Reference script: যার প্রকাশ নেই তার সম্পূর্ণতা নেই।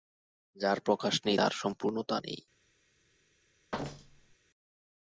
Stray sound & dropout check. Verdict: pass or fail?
fail